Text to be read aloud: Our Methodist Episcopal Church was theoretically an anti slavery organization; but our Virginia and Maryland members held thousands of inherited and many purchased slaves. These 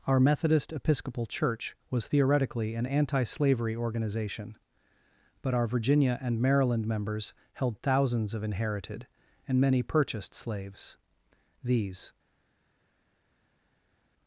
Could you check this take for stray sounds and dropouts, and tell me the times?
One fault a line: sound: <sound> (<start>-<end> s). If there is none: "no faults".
no faults